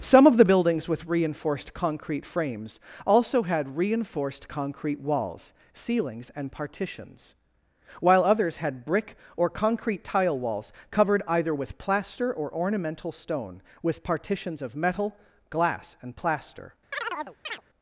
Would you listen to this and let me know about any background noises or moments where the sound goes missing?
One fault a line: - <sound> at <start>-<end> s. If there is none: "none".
- chirp at 16.9-17.6 s